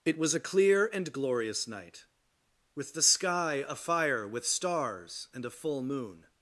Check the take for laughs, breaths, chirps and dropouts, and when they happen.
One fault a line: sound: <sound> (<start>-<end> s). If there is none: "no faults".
no faults